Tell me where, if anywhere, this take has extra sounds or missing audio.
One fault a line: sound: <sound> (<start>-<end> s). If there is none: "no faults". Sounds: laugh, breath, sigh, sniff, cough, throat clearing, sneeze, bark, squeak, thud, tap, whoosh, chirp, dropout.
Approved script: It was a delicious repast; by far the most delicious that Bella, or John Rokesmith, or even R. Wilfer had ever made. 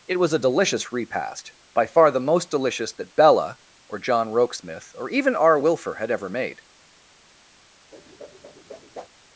sound: whoosh (7.9-9.1 s)